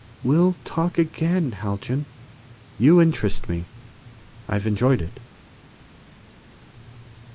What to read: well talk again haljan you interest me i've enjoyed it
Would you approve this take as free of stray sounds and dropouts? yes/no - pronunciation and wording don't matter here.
yes